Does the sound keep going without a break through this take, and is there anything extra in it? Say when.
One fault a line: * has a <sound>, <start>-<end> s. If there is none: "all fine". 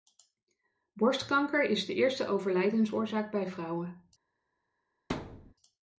* has a thud, 5.1-5.5 s